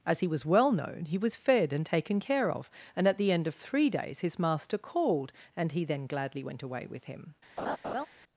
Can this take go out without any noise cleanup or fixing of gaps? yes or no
no